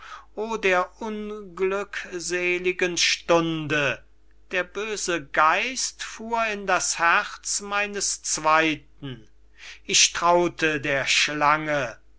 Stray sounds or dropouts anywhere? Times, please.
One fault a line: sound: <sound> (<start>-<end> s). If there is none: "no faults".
no faults